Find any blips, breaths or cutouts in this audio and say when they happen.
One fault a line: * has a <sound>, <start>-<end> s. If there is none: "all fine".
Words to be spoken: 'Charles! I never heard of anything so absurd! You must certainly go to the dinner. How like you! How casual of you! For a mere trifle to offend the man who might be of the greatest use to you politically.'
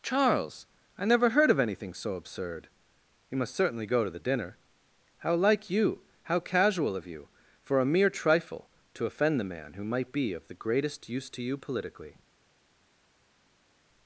all fine